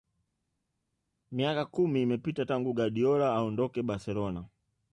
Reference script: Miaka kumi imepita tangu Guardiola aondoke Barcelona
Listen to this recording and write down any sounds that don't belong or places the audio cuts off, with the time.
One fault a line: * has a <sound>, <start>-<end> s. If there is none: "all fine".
all fine